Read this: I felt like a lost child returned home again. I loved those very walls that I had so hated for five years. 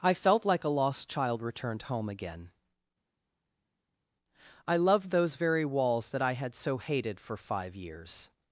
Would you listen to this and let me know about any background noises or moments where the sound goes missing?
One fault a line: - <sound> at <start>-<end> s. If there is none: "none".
none